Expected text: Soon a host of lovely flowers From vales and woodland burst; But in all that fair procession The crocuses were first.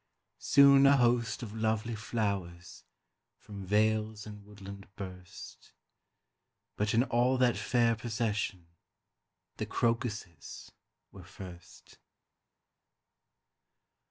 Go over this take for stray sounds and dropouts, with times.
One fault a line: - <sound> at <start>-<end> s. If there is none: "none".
none